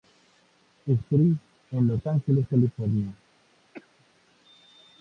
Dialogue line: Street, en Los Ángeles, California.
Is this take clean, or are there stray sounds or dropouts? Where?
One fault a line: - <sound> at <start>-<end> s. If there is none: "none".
- cough at 3.7-4.1 s